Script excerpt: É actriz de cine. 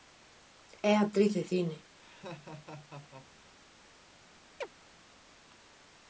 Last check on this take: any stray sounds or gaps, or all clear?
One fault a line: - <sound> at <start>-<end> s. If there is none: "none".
- laugh at 1.9-3.5 s
- chirp at 4.6-4.7 s